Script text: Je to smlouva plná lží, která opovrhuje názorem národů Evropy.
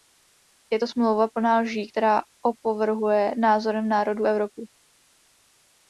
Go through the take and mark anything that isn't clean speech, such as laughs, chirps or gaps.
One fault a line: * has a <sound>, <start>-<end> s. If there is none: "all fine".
all fine